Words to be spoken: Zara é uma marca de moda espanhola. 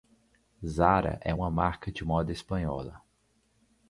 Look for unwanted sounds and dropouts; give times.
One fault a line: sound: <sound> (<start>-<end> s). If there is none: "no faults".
no faults